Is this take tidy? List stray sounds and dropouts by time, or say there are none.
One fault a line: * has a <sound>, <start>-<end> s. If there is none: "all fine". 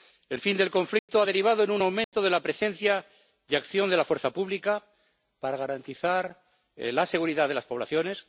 * has a dropout, 1.0-1.1 s
* has a dropout, 2.0-2.1 s